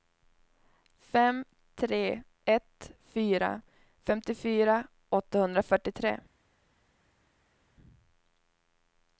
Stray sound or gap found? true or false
false